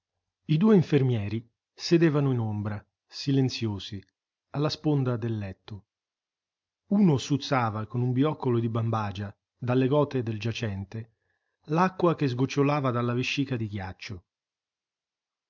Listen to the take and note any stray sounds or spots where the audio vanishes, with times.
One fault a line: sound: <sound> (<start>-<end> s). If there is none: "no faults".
no faults